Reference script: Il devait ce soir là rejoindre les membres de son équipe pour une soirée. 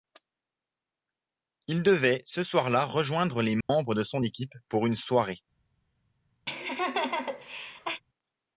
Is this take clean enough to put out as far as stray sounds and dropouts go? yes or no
no